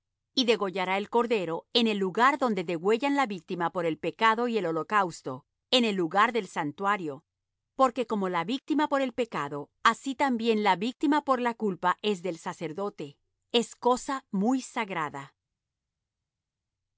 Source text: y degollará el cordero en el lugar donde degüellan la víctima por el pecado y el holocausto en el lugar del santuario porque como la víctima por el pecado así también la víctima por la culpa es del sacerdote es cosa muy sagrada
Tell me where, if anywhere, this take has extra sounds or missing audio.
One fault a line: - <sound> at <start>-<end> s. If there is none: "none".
none